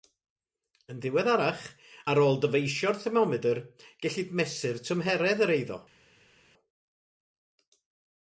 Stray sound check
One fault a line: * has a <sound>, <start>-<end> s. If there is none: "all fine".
all fine